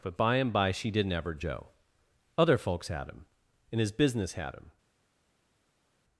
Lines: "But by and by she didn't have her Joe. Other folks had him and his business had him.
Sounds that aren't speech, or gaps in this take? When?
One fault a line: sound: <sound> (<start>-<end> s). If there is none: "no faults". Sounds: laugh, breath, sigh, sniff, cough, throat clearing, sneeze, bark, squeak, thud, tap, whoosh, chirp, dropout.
no faults